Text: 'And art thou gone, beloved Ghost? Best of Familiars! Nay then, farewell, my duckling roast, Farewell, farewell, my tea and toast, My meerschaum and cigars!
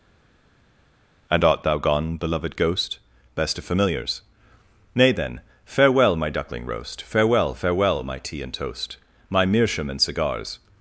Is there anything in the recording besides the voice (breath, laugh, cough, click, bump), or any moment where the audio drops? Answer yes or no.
no